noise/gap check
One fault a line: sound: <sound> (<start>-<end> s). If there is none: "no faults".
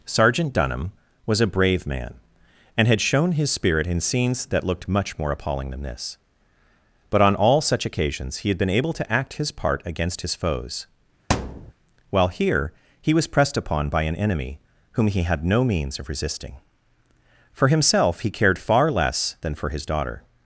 sound: thud (11.3-11.7 s)